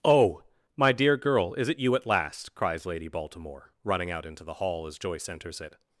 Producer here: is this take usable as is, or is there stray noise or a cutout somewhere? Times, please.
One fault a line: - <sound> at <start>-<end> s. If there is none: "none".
none